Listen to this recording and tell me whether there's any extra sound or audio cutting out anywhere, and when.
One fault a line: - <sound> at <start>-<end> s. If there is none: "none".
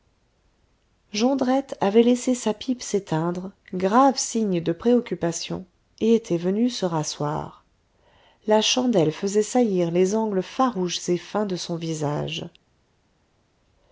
none